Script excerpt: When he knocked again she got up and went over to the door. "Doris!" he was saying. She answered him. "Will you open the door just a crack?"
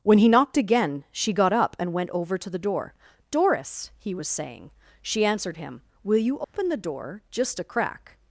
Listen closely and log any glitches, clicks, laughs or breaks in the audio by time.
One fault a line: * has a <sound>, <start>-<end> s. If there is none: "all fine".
* has a dropout, 6.4-6.5 s